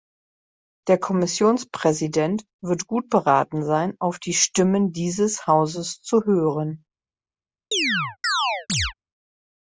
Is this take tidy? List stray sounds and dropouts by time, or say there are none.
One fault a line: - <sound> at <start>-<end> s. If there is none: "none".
- chirp at 7.7-8.9 s